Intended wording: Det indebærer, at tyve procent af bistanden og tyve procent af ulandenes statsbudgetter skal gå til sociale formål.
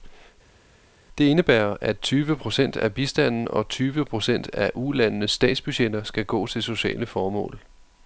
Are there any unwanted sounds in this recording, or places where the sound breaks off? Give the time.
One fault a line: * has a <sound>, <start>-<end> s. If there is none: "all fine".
all fine